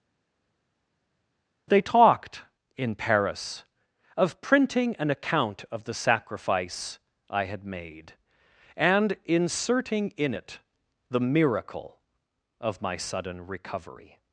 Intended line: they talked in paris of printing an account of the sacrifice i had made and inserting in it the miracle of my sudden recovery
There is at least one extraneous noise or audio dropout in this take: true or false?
false